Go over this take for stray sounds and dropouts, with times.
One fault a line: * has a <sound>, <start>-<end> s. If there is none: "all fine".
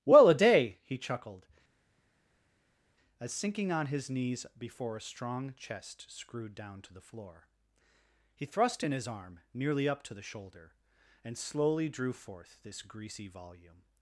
all fine